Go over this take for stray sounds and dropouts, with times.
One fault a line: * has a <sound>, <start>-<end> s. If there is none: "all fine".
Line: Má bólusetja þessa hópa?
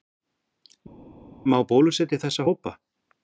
all fine